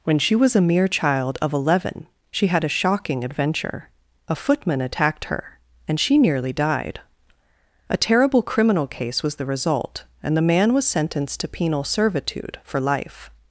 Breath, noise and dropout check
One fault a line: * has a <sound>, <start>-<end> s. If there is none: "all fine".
all fine